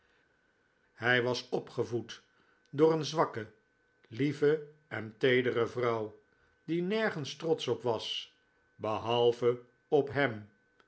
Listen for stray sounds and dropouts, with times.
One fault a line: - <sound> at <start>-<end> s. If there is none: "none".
none